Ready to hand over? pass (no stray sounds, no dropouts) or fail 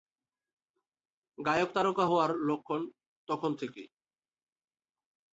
pass